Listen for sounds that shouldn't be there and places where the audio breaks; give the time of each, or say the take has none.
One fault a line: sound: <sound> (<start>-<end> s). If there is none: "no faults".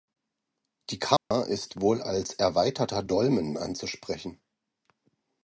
sound: dropout (1.2-1.3 s)